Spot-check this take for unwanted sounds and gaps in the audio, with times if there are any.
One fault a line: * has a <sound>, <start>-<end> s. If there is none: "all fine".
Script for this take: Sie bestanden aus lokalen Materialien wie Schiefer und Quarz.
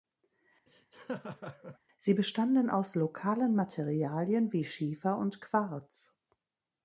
* has a laugh, 0.7-1.8 s